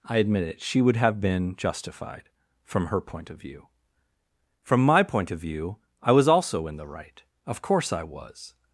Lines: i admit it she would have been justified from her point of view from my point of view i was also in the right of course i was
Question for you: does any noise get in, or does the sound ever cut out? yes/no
no